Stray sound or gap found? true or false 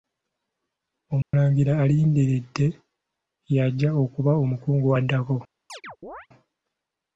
true